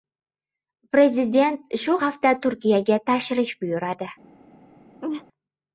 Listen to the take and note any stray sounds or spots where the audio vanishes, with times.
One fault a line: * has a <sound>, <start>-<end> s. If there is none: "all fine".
* has a laugh, 5.0-5.2 s